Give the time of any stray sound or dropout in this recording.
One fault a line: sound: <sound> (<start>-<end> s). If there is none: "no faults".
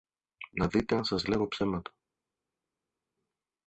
no faults